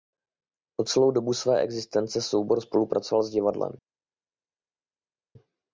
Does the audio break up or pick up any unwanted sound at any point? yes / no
no